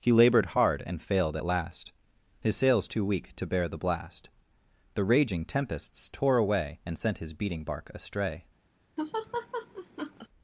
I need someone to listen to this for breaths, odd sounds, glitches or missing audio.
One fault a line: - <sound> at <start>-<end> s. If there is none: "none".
- laugh at 9.0-10.3 s